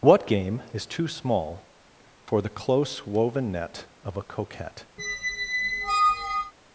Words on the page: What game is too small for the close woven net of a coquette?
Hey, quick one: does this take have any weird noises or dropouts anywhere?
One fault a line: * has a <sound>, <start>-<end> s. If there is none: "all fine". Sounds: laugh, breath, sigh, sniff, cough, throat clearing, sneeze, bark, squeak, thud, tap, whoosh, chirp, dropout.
* has a squeak, 5.0-6.5 s